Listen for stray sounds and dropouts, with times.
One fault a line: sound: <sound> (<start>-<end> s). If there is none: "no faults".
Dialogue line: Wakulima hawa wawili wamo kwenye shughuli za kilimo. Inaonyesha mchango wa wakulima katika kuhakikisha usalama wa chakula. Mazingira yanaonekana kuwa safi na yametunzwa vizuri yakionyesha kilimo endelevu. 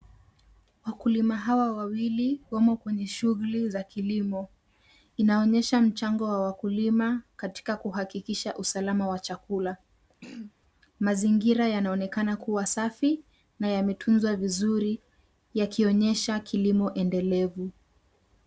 sound: throat clearing (10.2-10.5 s)